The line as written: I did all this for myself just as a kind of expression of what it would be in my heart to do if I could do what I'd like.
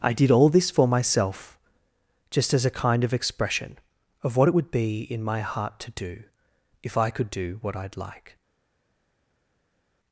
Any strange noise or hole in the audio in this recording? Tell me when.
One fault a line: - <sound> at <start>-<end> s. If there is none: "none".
none